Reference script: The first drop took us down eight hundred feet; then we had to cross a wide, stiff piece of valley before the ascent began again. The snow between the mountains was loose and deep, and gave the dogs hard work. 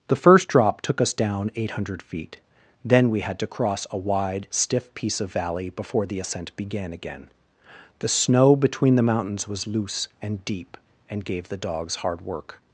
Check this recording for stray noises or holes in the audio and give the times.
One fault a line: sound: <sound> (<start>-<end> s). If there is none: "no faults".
no faults